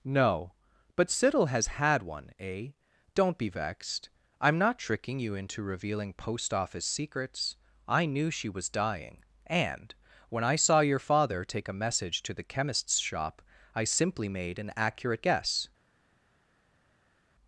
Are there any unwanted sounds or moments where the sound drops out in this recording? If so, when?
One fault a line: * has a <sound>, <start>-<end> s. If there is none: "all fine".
all fine